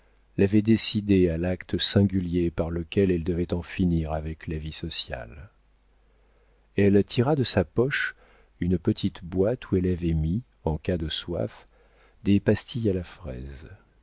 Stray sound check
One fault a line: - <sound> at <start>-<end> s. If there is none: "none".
none